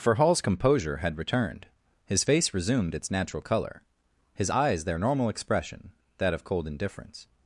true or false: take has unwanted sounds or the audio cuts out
false